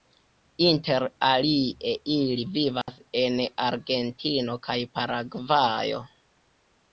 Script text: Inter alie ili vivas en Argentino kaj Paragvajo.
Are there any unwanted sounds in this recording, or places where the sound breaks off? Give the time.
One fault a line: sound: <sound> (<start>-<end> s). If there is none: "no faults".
sound: dropout (2.8-2.9 s)